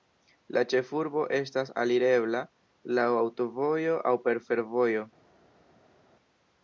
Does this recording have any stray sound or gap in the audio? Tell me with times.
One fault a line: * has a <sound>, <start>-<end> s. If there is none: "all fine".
all fine